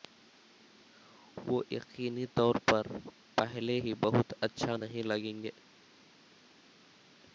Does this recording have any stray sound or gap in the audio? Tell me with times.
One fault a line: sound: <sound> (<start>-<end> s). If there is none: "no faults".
no faults